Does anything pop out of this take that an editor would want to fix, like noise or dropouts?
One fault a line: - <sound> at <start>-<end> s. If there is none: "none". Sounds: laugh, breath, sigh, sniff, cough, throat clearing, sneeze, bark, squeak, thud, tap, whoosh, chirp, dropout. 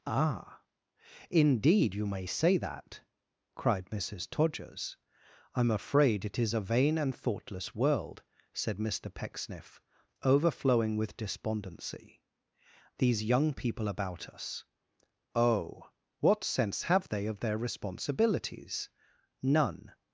none